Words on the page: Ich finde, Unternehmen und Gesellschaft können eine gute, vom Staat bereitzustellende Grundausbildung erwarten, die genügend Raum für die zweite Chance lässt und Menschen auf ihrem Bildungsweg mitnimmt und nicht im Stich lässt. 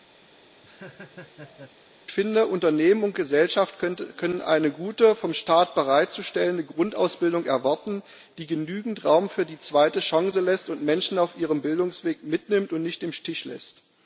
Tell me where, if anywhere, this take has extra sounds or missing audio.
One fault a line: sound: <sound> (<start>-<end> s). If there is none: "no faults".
sound: laugh (0.2-1.8 s)